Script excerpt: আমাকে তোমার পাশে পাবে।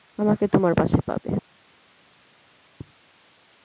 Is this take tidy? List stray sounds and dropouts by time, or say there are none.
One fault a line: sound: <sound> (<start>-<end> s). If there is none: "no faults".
no faults